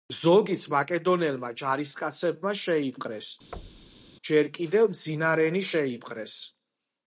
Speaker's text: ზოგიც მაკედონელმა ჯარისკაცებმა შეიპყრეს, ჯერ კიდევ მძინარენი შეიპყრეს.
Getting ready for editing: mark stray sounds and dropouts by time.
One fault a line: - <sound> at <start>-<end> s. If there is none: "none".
- thud at 3.5-4.1 s